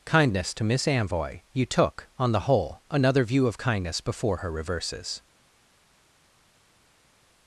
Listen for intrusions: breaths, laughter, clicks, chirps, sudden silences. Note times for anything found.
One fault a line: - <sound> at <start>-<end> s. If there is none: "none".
none